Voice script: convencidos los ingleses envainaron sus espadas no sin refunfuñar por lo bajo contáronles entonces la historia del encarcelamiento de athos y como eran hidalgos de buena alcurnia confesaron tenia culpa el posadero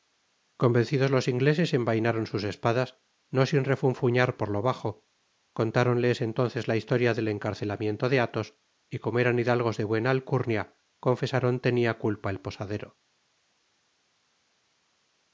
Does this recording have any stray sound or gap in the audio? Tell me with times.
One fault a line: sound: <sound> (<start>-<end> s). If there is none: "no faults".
no faults